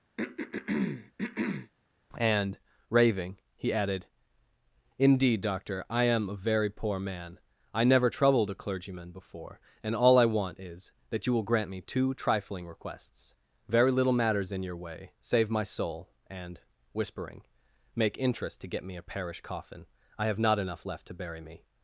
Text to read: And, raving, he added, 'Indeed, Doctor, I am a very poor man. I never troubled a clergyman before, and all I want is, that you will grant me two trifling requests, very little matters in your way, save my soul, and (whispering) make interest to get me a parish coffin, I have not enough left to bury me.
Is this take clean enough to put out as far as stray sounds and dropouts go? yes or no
no